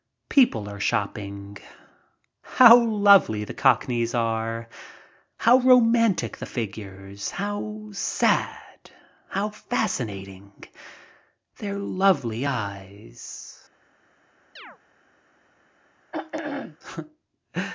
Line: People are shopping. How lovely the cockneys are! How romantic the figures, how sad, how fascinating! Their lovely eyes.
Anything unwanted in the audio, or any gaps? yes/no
yes